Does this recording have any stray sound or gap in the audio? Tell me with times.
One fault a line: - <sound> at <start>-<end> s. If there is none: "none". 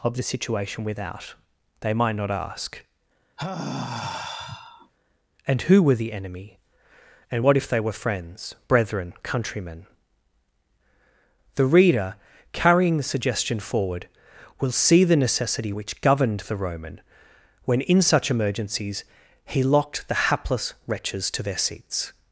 - sigh at 3.4-4.9 s